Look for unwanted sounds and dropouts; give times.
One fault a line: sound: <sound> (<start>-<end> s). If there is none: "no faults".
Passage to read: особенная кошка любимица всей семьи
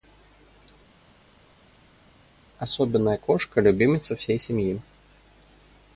no faults